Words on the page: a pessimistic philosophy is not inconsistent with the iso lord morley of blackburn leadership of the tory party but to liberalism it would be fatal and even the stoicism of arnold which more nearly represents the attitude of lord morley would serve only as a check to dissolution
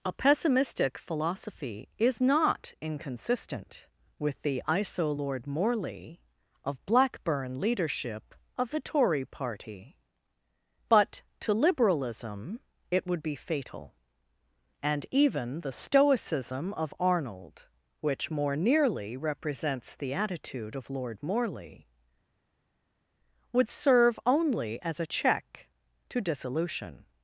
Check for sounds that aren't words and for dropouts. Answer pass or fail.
pass